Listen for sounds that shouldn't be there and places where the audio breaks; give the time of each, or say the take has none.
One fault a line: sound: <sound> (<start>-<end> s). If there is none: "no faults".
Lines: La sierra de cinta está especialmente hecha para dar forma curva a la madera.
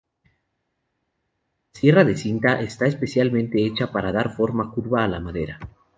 no faults